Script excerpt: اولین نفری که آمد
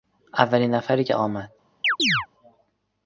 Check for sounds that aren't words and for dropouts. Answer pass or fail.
fail